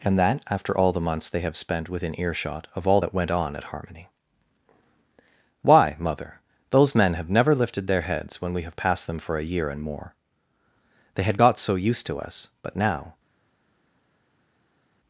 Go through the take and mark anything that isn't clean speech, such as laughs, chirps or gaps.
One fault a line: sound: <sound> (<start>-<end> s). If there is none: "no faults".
no faults